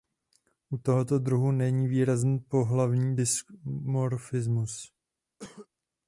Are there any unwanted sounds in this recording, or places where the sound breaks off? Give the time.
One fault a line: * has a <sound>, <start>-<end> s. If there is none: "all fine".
* has a cough, 5.4-5.7 s